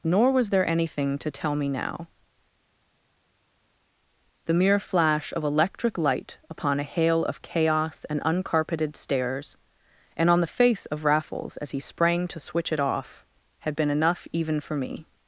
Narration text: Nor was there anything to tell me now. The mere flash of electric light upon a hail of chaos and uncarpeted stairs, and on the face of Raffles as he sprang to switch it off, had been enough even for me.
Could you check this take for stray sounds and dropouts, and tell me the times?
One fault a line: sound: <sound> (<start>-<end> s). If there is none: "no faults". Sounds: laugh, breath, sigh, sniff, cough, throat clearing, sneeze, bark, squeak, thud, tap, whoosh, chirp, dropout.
no faults